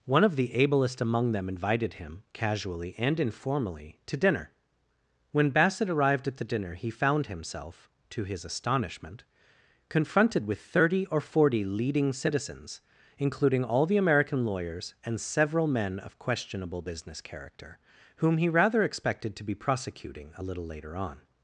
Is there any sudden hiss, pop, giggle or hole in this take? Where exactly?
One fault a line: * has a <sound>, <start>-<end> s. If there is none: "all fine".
all fine